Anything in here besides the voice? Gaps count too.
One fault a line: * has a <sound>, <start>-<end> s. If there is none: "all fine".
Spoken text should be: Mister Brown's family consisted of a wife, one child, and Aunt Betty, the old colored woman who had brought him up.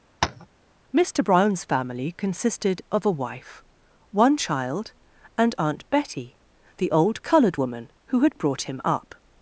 * has a tap, 0.2-0.5 s